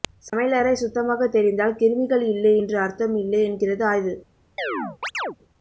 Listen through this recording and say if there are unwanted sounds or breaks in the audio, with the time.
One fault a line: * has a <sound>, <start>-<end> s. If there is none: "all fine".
* has a chirp, 4.6-5.4 s